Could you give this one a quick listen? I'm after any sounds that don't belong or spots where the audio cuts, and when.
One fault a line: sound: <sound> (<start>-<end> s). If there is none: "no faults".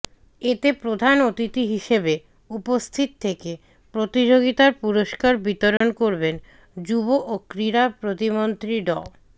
sound: dropout (5.8-5.8 s)